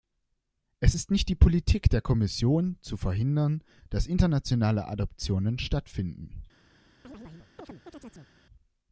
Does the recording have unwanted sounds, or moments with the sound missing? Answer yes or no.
yes